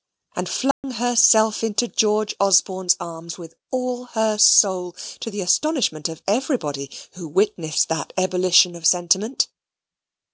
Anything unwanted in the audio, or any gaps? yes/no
yes